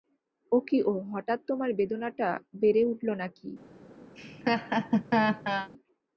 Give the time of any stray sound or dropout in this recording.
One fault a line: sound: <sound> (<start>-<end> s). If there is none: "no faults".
sound: laugh (4.1-5.7 s)